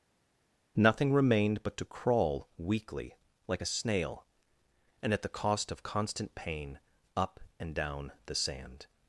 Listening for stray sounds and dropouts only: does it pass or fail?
pass